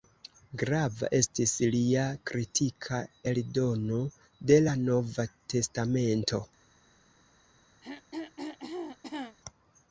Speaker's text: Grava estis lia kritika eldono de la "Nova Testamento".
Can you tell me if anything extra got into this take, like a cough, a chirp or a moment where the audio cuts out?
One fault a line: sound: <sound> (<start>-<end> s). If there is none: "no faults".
sound: throat clearing (7.8-9.4 s)